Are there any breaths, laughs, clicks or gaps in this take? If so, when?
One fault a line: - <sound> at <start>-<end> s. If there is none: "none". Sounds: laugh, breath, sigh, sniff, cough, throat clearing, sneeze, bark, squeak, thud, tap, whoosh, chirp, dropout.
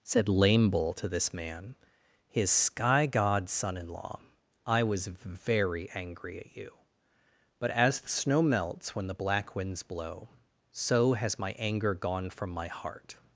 none